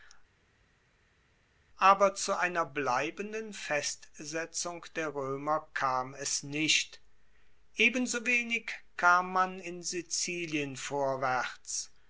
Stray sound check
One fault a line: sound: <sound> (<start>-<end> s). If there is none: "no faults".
no faults